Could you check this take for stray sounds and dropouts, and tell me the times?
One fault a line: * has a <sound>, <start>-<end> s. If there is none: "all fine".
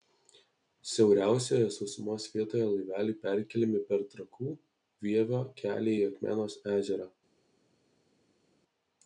all fine